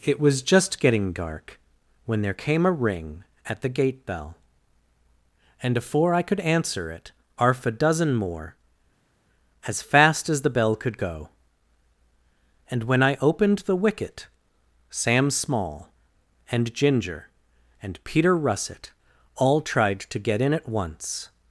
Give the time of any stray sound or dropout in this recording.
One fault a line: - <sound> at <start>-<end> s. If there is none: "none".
none